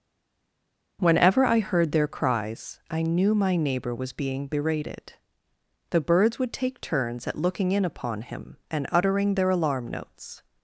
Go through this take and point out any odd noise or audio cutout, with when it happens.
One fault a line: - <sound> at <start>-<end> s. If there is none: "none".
none